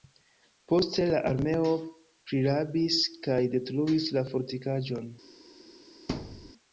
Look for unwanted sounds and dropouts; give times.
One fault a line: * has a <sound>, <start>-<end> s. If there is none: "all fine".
* has a thud, 6.1-6.5 s